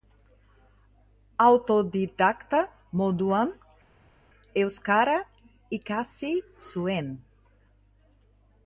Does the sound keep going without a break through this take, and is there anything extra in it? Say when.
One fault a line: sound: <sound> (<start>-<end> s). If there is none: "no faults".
no faults